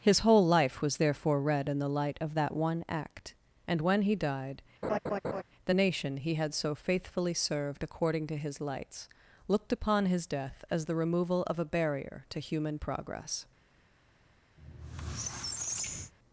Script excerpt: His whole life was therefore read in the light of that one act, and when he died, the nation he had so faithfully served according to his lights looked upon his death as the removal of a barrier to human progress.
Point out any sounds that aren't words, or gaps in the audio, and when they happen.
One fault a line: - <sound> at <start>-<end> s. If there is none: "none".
- laugh at 4.8-5.4 s
- squeak at 14.6-16.1 s